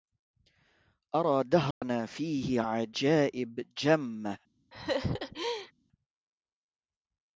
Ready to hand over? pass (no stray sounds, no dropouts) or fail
fail